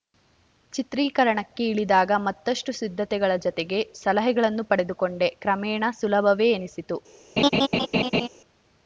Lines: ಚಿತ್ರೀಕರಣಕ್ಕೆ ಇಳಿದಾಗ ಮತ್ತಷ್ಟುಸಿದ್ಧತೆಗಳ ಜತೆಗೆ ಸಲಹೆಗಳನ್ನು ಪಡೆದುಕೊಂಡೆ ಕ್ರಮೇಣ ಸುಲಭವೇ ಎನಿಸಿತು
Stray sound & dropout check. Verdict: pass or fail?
fail